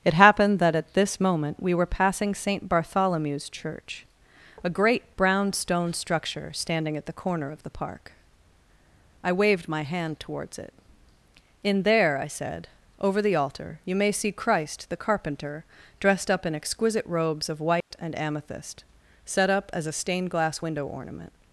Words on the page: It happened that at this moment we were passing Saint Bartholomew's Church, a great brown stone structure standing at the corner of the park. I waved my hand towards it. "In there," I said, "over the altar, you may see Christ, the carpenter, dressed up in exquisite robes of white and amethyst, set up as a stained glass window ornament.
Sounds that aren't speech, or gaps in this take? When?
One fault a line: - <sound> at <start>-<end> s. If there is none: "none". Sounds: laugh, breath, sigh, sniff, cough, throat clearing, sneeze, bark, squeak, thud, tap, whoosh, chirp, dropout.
- dropout at 17.8-17.9 s